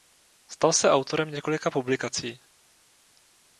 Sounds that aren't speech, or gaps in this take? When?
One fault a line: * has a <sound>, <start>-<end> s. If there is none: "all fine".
all fine